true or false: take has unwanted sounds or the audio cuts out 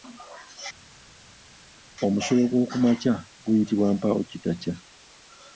false